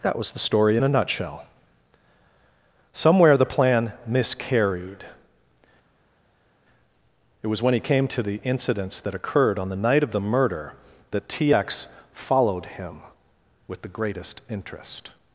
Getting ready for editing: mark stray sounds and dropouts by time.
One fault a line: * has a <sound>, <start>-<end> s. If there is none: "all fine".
all fine